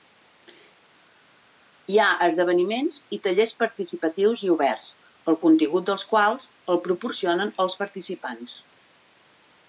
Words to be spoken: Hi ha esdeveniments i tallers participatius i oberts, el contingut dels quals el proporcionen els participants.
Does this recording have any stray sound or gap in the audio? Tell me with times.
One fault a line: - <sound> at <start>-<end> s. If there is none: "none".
none